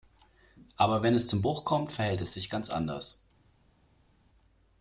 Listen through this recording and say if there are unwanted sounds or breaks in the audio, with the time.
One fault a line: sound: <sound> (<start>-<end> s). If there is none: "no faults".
no faults